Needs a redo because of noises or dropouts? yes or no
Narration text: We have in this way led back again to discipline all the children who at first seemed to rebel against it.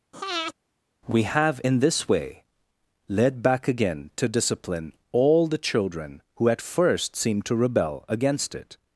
yes